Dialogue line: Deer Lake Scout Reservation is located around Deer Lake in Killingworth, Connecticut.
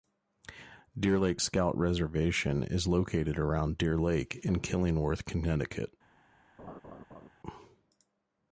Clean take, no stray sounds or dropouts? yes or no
no